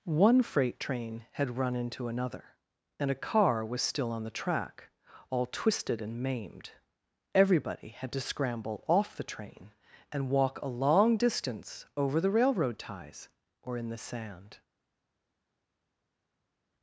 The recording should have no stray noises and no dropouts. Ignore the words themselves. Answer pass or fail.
pass